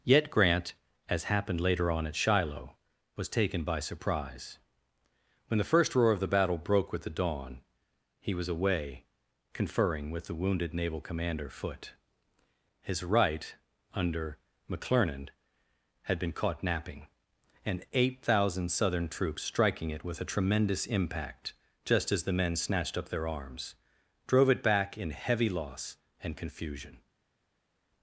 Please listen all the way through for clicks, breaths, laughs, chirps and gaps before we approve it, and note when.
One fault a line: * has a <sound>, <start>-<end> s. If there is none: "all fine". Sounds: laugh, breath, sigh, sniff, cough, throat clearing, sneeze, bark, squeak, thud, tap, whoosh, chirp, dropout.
all fine